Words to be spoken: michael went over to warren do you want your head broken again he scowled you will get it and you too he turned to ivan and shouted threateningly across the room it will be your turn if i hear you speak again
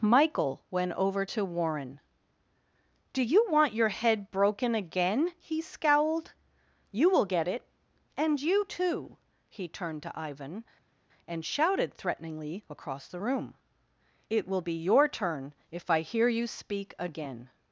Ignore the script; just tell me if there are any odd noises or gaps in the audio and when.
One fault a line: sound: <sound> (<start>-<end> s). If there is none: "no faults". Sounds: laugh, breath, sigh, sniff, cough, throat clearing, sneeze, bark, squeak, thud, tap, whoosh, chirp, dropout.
no faults